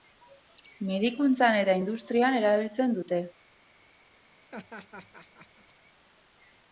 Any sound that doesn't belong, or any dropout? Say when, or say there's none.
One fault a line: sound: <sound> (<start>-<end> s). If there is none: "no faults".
sound: laugh (4.5-5.7 s)